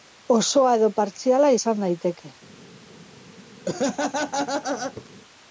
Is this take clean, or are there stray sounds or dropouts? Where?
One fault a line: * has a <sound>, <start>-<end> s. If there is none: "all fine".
* has a laugh, 3.7-5.1 s